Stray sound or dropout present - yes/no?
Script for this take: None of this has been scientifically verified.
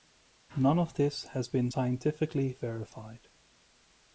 no